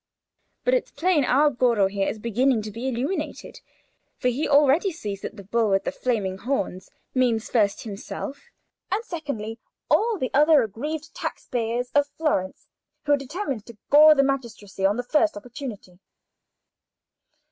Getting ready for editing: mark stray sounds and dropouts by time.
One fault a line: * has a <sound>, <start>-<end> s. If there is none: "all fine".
all fine